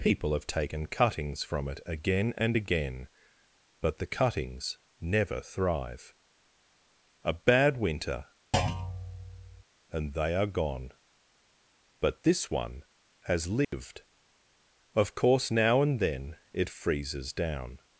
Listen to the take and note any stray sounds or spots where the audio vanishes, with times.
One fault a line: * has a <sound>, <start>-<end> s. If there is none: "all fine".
* has a thud, 8.5-9.6 s
* has a dropout, 13.6-13.7 s